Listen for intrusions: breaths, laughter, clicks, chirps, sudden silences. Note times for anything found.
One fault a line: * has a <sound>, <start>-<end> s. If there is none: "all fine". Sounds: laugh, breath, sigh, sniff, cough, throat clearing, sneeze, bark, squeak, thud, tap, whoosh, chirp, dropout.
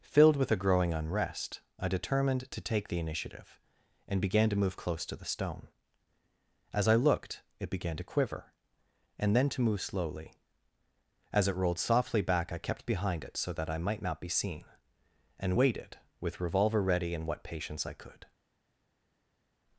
all fine